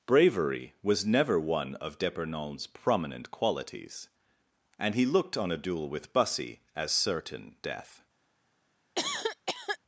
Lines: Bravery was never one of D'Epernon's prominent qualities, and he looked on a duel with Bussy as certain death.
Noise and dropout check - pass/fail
fail